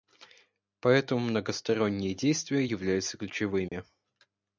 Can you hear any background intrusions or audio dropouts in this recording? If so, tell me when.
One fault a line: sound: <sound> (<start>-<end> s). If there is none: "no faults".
sound: dropout (3.7-3.7 s)